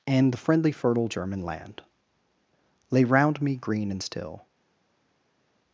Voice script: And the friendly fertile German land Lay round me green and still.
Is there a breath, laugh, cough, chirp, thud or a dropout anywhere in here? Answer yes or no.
no